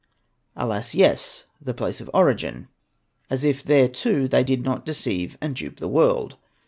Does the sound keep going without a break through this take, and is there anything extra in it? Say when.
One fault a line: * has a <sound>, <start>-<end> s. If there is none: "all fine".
all fine